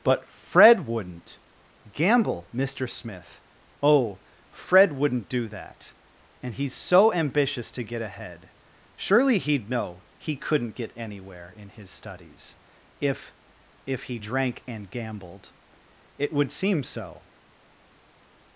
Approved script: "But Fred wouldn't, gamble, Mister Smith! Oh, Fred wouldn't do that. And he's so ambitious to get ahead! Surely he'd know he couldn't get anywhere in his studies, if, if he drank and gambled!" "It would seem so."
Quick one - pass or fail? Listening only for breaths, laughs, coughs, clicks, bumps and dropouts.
pass